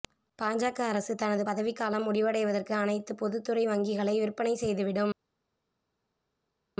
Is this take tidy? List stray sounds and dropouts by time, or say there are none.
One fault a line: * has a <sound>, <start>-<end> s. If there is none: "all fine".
all fine